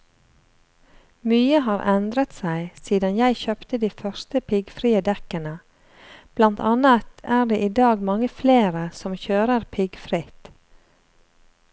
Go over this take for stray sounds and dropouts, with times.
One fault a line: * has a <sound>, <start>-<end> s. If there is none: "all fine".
all fine